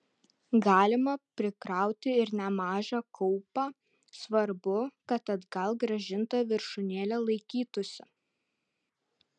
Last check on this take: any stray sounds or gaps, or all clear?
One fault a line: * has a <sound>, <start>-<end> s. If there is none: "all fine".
all fine